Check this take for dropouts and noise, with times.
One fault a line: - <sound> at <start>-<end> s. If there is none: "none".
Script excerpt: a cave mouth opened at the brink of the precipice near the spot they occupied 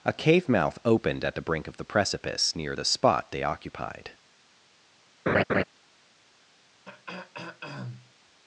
- laugh at 5.3-5.6 s
- throat clearing at 6.9-8.1 s